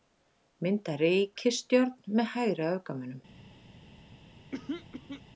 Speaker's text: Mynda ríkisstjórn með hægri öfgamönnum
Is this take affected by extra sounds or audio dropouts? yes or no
yes